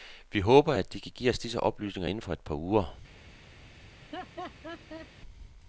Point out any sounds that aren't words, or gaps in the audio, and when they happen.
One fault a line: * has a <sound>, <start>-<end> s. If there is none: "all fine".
* has a laugh, 3.9-5.1 s